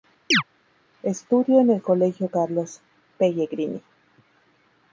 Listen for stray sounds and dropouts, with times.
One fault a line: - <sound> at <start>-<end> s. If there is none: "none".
- chirp at 0.3-0.4 s